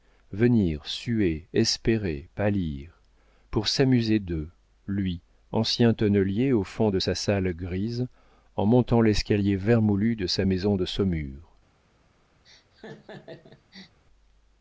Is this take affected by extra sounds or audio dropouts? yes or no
yes